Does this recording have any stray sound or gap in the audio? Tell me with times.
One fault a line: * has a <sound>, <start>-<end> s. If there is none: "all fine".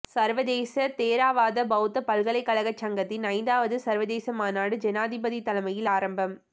all fine